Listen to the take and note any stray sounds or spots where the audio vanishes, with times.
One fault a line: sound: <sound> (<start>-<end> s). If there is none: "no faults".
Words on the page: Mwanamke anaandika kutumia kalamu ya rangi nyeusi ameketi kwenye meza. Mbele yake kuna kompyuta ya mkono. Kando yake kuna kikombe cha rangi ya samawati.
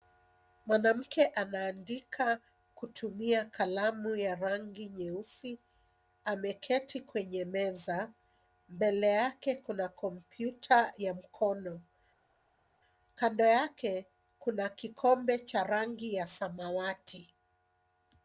no faults